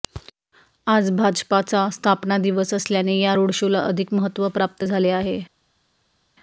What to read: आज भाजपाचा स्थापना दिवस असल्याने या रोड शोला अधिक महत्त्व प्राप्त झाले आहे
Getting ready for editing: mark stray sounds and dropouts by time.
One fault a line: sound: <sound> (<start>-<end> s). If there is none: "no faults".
no faults